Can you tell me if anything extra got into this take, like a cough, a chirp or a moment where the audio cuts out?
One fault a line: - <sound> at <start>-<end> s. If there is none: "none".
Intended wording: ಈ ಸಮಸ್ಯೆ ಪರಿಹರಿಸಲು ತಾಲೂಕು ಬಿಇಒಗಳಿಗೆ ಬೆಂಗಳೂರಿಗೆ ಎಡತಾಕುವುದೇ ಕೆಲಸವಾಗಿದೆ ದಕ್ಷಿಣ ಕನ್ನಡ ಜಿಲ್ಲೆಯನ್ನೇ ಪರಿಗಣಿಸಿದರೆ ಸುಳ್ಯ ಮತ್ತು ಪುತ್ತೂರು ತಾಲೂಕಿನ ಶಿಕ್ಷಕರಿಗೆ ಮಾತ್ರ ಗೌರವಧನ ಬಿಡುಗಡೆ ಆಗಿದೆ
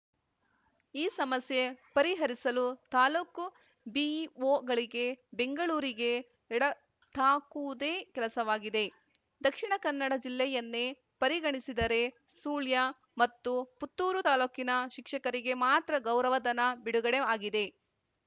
none